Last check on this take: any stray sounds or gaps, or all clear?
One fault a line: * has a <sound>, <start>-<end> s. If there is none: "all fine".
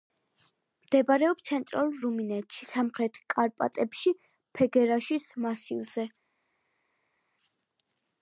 all fine